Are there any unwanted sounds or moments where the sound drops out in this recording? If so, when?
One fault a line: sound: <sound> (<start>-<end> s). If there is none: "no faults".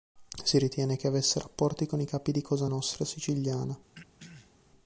sound: throat clearing (3.9-4.5 s)